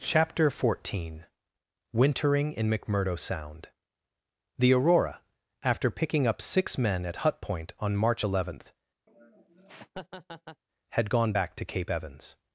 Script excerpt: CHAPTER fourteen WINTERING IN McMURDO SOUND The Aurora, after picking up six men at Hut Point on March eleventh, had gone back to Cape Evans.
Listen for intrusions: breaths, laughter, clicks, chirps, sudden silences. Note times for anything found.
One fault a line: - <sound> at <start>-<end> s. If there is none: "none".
- laugh at 9.1-10.6 s